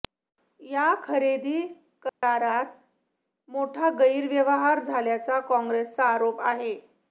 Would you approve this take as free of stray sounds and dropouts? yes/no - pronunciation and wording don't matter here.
no